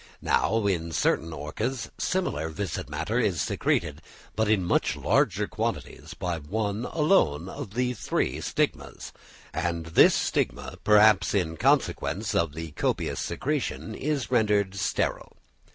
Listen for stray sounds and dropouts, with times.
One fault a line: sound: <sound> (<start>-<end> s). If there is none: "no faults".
no faults